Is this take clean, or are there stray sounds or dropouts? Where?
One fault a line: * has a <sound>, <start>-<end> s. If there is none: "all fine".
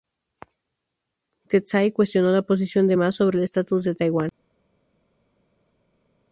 all fine